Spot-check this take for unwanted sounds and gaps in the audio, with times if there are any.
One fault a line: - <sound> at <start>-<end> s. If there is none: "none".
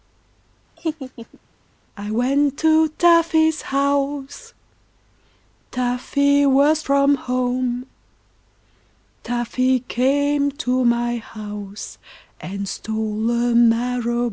- laugh at 0.8-1.4 s